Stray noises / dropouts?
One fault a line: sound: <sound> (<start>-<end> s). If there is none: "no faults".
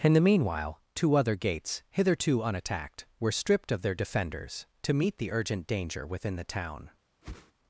sound: whoosh (7.2-7.5 s)